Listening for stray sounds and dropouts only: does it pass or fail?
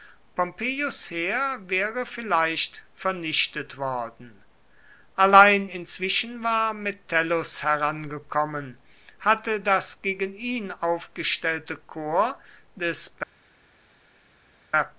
pass